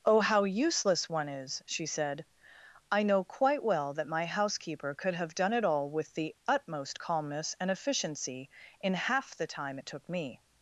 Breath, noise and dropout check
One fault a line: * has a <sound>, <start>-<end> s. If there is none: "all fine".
all fine